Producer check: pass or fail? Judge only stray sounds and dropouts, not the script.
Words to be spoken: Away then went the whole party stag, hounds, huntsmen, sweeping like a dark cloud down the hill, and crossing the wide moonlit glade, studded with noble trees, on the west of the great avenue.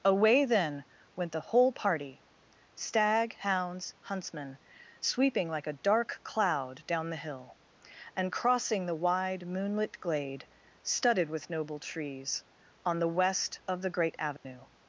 fail